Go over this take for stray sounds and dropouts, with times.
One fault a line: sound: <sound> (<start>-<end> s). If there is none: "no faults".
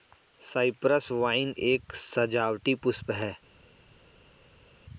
no faults